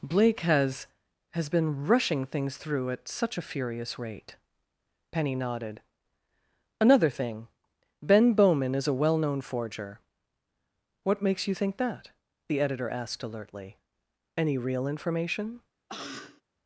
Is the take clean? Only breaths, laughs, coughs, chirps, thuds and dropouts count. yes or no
no